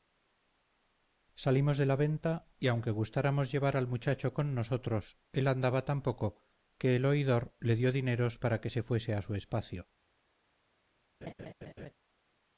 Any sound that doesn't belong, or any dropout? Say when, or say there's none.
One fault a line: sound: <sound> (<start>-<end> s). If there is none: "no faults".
sound: laugh (11.2-11.9 s)